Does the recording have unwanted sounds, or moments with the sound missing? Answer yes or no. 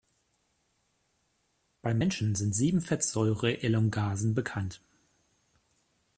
no